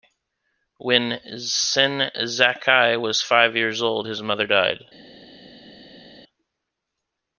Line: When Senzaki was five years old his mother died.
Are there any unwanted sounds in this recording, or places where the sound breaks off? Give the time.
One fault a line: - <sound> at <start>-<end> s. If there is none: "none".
none